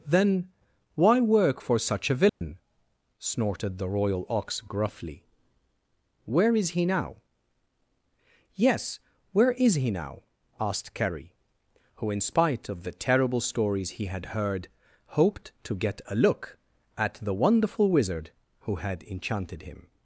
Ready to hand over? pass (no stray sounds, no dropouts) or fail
fail